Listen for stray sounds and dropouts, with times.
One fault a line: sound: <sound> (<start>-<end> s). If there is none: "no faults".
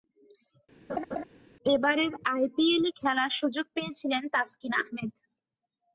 sound: laugh (0.9-1.2 s)